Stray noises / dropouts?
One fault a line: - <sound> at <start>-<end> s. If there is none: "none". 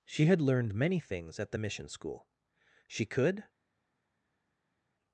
none